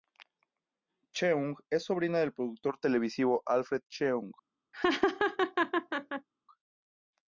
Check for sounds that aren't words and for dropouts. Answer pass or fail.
fail